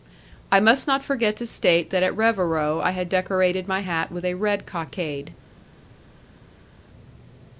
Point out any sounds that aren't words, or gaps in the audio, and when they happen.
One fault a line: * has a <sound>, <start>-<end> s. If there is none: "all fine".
all fine